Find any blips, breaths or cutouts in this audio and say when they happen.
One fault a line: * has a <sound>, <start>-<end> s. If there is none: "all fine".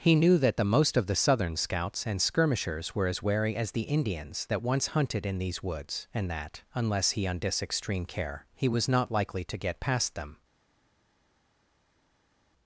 all fine